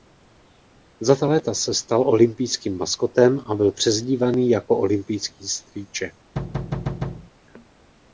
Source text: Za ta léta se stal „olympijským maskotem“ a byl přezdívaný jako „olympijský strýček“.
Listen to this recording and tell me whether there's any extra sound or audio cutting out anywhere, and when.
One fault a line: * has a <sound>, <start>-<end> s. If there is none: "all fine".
* has a thud, 6.4-7.3 s